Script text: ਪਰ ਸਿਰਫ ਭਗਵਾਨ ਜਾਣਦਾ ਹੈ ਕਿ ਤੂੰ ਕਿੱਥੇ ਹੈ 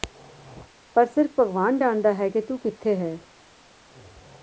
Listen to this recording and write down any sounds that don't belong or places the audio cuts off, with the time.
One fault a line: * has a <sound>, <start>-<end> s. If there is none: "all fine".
all fine